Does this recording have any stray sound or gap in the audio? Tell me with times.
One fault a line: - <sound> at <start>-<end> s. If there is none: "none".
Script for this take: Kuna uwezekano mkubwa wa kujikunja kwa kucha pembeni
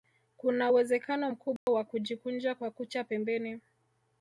- dropout at 1.6-1.7 s